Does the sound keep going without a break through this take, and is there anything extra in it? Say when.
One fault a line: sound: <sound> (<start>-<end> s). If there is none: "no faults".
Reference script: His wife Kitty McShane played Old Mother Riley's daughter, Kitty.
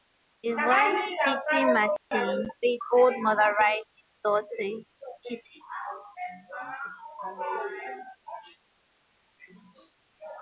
sound: dropout (2.0-2.1 s)